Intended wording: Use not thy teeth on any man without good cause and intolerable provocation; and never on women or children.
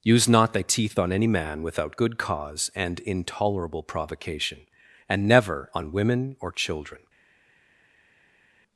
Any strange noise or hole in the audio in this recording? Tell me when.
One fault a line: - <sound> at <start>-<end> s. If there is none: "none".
none